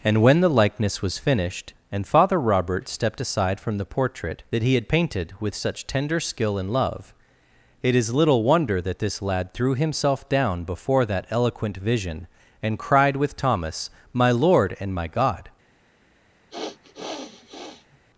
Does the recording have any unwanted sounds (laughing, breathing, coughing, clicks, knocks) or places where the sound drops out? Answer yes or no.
yes